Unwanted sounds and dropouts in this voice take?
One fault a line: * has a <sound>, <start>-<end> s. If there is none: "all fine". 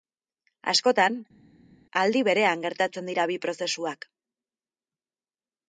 all fine